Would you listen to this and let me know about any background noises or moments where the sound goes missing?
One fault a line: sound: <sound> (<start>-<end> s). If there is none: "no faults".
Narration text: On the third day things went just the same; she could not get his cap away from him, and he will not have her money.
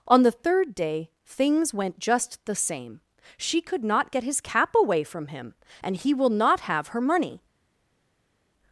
no faults